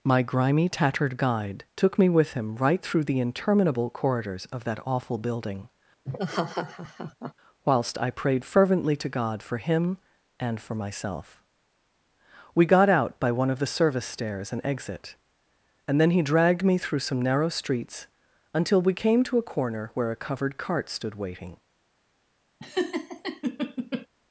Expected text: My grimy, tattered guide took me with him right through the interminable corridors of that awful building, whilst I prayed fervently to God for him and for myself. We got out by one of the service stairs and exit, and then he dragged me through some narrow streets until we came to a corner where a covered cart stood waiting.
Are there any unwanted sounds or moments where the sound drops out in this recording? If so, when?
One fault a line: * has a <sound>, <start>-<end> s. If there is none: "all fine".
* has a laugh, 6.0-7.3 s
* has a laugh, 22.6-24.1 s